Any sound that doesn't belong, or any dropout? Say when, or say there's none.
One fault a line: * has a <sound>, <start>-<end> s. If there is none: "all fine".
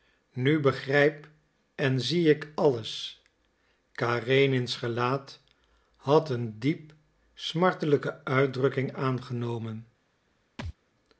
* has a thud, 10.6-10.7 s